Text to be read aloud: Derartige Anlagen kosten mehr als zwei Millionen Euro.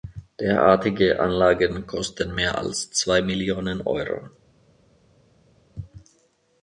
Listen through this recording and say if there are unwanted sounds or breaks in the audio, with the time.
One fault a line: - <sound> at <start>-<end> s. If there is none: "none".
none